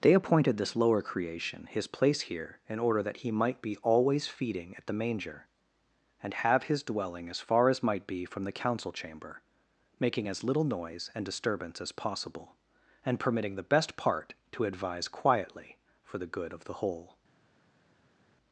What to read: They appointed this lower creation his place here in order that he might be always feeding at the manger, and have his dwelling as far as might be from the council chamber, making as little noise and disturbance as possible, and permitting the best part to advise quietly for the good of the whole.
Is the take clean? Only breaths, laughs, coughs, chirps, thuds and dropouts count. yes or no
yes